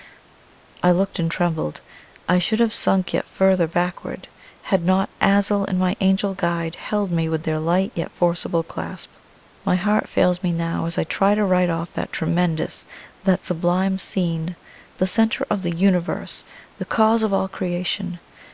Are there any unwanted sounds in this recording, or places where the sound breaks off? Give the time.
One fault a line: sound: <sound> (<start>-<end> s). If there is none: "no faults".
no faults